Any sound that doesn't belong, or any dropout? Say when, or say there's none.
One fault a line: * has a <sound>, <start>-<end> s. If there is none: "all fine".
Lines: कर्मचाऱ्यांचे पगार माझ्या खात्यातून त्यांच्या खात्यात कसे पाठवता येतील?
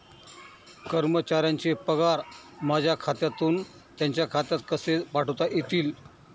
all fine